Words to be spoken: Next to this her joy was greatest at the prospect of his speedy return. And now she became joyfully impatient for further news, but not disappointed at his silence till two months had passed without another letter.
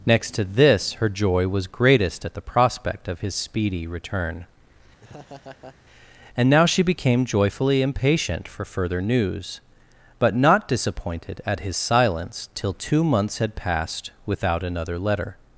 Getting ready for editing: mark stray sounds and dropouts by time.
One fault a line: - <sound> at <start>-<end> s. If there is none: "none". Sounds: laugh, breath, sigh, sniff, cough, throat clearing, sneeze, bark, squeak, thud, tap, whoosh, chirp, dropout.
- laugh at 5.0-5.8 s